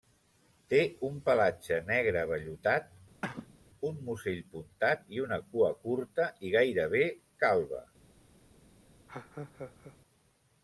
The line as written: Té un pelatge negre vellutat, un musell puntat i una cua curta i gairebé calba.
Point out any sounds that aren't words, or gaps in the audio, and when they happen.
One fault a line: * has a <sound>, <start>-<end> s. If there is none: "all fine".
* has a cough, 3.2-3.6 s
* has a laugh, 9.1-10.0 s